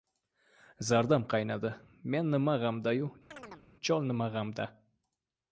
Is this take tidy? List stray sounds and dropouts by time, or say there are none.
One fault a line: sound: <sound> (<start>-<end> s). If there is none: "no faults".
sound: chirp (3.3-3.7 s)